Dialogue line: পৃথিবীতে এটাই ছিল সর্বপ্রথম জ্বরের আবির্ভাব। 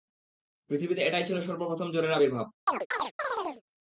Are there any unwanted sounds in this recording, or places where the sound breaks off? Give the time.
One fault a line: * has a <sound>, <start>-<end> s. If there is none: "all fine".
* has a chirp, 2.7-3.6 s